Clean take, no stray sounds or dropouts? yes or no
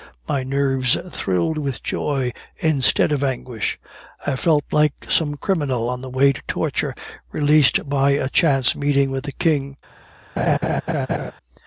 no